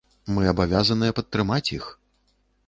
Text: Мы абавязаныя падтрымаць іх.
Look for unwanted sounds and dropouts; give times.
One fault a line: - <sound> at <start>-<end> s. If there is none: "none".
none